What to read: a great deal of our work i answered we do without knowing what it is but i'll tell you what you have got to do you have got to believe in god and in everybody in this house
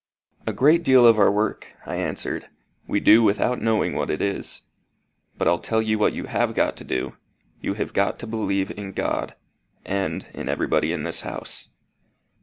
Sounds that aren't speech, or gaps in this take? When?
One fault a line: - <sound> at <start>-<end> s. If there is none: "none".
none